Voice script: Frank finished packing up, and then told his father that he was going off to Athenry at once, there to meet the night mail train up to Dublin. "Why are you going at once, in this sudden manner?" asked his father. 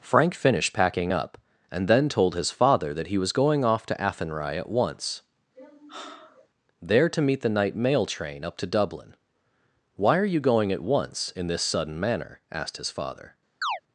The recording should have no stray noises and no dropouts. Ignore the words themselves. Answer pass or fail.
fail